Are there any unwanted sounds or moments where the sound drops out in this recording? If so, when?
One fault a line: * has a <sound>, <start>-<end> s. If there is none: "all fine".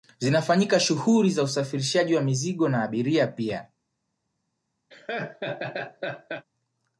* has a laugh, 4.9-6.5 s